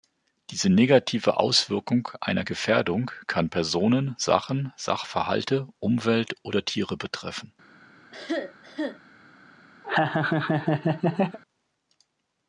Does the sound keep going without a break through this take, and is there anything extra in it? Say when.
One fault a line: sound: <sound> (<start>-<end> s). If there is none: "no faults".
sound: cough (8.1-9.0 s)
sound: laugh (9.8-11.4 s)